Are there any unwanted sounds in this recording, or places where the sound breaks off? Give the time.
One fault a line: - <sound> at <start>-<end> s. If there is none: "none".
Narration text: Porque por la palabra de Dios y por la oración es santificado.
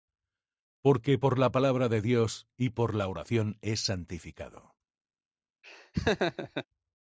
- laugh at 5.6-6.7 s